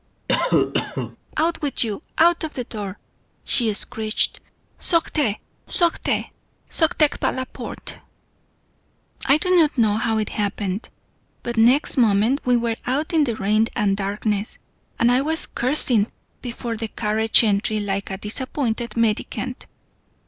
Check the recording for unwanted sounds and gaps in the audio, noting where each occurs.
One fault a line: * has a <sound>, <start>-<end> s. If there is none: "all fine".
* has a cough, 0.3-1.2 s